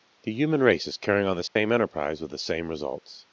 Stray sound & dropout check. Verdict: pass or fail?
fail